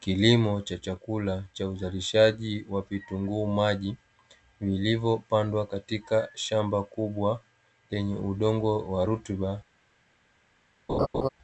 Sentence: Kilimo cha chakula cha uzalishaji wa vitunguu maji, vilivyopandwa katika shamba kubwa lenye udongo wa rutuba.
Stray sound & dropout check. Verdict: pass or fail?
fail